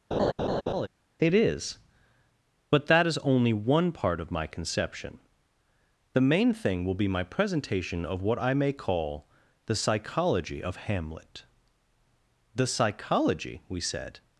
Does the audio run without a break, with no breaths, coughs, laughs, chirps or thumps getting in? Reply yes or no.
no